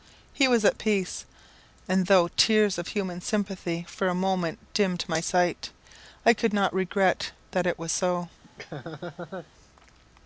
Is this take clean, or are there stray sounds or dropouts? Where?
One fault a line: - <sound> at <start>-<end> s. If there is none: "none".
- laugh at 8.4-9.5 s